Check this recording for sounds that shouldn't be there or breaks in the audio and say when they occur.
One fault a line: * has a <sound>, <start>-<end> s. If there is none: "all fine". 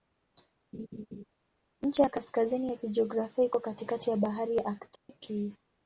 * has a laugh, 0.7-1.2 s
* has a dropout, 5.0-5.1 s